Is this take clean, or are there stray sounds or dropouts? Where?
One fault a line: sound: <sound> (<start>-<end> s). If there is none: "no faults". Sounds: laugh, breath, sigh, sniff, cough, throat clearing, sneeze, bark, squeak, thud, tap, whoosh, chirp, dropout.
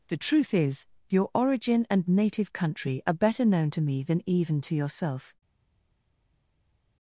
no faults